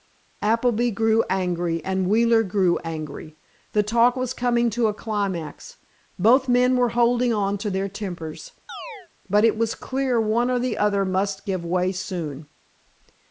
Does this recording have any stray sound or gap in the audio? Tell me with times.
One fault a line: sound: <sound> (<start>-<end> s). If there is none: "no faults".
sound: chirp (8.7-9.1 s)